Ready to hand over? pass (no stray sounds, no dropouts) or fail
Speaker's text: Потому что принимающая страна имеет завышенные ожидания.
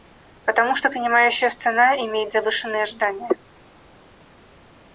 pass